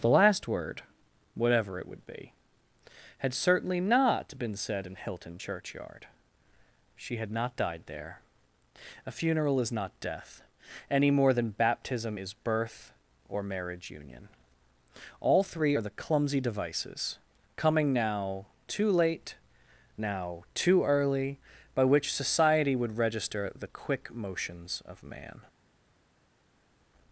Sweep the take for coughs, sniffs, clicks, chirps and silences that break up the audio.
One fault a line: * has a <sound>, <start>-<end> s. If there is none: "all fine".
all fine